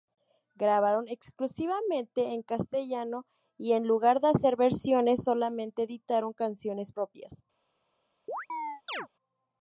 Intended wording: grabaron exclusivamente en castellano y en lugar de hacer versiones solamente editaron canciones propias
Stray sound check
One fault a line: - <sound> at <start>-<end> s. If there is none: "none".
- chirp at 8.3-9.1 s